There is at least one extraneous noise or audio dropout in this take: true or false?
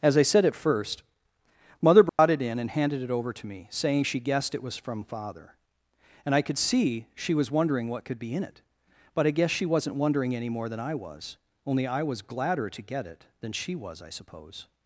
true